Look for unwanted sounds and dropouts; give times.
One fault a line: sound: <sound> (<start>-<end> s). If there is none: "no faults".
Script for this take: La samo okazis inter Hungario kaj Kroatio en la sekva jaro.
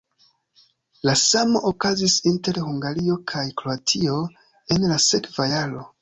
no faults